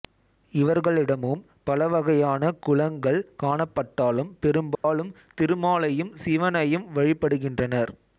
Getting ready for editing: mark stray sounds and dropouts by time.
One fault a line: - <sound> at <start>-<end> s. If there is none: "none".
- dropout at 4.7-4.8 s